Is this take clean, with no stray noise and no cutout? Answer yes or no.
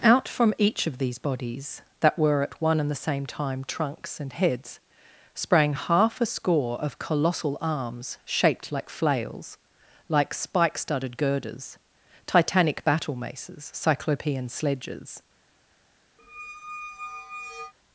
no